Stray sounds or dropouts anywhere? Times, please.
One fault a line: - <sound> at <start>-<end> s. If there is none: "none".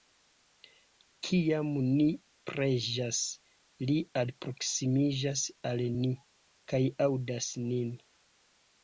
none